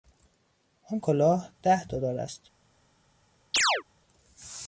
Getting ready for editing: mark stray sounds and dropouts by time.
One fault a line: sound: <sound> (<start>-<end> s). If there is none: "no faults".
sound: chirp (3.5-3.8 s)